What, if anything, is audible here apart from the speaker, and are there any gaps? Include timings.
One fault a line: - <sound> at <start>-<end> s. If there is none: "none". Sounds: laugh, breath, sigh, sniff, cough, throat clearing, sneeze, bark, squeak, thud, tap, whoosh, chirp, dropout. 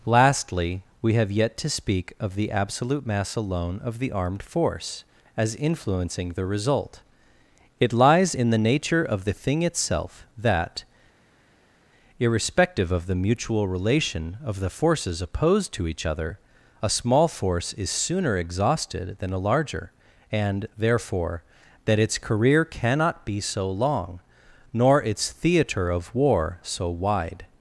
none